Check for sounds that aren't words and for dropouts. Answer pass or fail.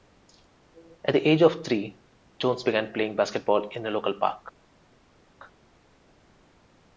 pass